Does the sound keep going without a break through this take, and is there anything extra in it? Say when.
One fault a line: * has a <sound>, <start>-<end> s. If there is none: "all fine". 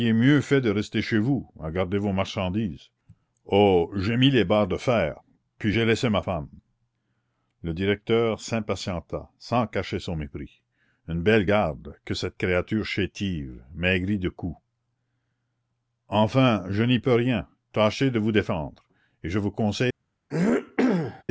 * has a throat clearing, 20.3-21.2 s